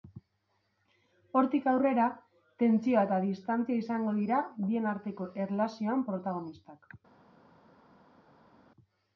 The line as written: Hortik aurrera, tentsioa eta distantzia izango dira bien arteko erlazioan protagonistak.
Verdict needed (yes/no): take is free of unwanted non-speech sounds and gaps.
yes